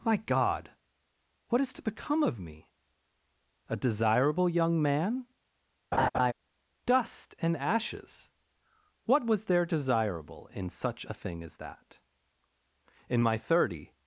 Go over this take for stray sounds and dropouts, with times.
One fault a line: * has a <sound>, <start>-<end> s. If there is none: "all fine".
* has a laugh, 5.9-6.3 s